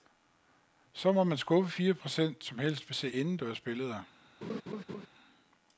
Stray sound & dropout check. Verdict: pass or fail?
fail